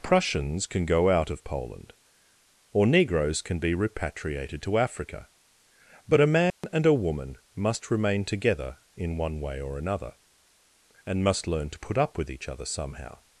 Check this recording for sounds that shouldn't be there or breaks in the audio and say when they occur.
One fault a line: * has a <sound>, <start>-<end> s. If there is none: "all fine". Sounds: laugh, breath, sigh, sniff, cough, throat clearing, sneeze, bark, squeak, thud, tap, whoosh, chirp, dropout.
* has a dropout, 6.5-6.6 s